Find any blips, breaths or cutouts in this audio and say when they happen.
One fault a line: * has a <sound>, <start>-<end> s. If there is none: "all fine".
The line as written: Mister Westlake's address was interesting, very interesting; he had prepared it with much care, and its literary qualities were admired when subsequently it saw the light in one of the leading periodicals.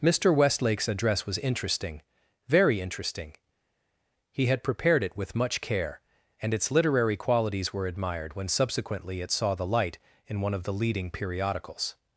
all fine